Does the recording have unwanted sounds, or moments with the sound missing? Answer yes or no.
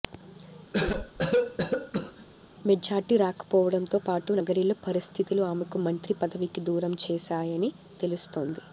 yes